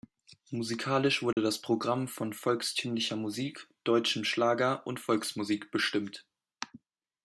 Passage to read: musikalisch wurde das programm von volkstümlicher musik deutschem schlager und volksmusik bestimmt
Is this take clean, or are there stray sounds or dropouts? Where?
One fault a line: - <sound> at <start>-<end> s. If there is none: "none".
- dropout at 1.3-1.4 s